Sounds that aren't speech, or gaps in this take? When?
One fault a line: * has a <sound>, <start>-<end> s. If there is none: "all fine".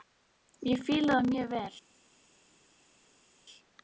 all fine